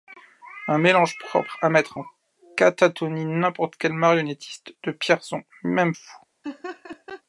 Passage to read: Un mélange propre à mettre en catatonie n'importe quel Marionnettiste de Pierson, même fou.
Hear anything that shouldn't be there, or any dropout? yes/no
yes